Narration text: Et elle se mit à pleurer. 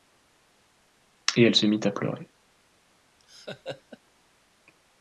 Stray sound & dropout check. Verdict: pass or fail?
fail